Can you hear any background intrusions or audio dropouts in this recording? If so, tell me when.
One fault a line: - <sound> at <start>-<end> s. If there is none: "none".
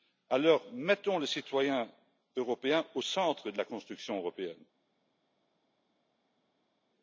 none